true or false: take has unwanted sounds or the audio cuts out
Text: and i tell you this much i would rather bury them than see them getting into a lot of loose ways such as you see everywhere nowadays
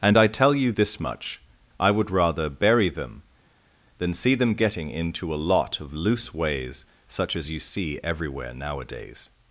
false